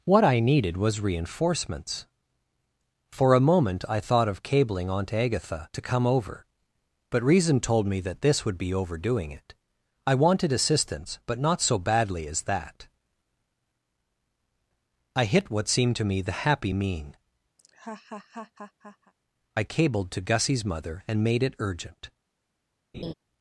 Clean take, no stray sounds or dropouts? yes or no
no